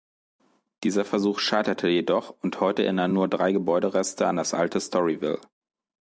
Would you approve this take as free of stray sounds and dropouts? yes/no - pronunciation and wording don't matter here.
yes